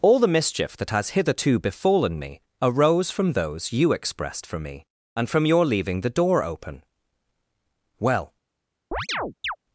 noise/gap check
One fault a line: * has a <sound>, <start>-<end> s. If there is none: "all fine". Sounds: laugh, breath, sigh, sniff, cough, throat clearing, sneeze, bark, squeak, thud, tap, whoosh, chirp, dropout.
* has a chirp, 8.9-9.6 s